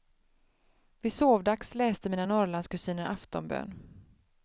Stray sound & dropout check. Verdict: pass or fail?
pass